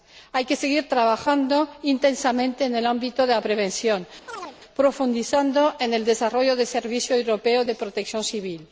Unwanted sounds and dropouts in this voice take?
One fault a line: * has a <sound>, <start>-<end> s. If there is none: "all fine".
* has a chirp, 4.3-4.6 s